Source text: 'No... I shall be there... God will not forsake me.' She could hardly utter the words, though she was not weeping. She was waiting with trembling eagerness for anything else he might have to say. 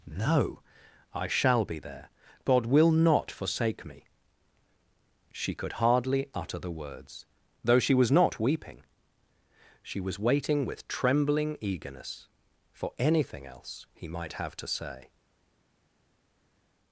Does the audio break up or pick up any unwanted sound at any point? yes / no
no